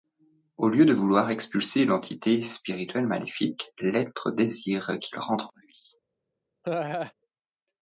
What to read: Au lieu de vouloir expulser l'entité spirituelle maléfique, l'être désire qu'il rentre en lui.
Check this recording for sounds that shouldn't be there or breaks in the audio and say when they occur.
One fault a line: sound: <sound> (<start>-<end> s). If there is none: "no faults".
sound: laugh (6.6-7.1 s)